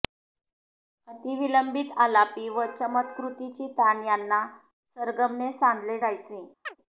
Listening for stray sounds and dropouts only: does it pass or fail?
fail